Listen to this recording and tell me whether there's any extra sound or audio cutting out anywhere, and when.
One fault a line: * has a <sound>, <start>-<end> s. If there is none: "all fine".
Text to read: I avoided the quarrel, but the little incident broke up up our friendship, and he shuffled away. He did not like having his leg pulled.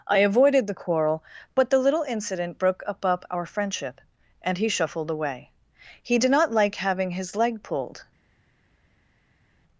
all fine